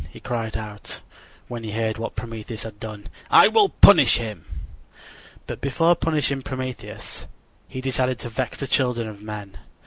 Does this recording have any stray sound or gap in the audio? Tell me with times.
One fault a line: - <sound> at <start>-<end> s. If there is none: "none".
none